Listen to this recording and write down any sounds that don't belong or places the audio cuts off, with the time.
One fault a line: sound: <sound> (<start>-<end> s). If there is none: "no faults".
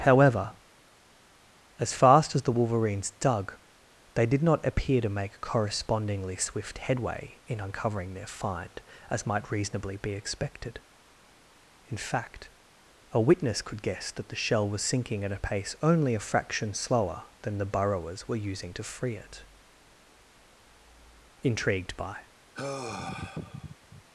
sound: sigh (22.5-24.0 s)